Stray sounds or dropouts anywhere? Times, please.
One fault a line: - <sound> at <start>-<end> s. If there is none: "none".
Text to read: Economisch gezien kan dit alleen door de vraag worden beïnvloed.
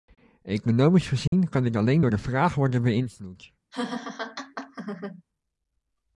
- dropout at 1.3-1.3 s
- laugh at 3.7-5.2 s